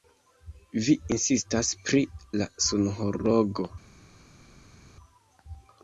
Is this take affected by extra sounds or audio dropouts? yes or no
no